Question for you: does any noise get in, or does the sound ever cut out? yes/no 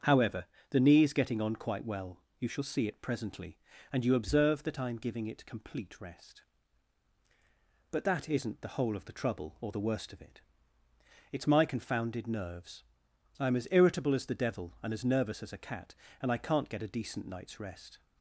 no